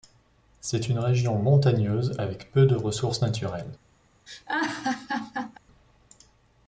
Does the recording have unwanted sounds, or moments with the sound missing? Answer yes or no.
yes